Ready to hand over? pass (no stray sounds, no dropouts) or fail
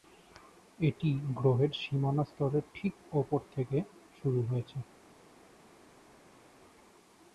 pass